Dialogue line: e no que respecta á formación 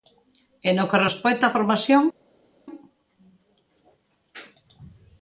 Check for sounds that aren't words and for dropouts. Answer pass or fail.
pass